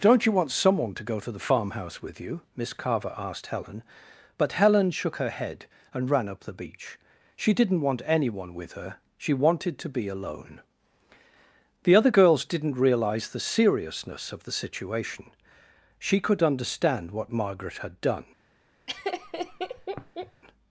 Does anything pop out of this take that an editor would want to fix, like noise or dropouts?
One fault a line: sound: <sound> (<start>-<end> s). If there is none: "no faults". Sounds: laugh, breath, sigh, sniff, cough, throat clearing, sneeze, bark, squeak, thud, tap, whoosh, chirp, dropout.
sound: laugh (18.9-20.4 s)